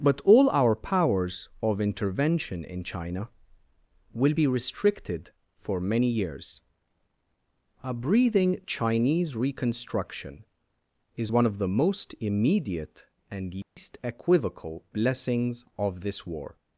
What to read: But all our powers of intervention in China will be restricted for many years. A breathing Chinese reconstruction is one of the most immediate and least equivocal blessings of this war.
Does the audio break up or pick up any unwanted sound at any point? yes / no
yes